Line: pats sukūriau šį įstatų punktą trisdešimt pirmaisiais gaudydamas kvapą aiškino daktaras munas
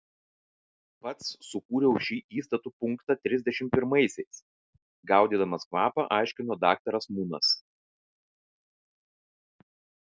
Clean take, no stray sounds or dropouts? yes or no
yes